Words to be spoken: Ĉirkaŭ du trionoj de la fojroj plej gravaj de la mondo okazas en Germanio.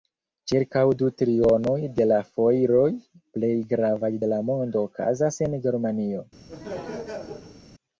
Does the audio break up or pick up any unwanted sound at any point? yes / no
yes